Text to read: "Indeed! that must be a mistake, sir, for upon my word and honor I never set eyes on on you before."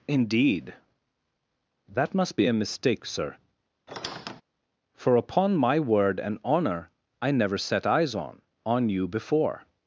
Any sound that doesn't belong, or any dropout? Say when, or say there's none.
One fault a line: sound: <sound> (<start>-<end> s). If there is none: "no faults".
sound: squeak (3.9-4.4 s)